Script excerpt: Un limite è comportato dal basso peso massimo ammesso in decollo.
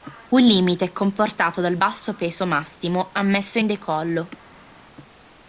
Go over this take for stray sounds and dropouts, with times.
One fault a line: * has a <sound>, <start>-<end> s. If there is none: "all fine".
all fine